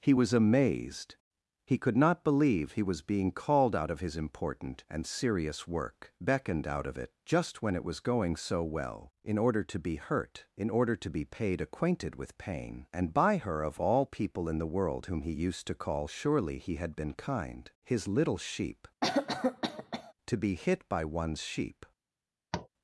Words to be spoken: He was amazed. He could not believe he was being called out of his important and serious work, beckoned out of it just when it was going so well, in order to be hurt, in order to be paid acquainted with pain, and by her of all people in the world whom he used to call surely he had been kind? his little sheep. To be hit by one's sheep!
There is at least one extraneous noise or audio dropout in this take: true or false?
true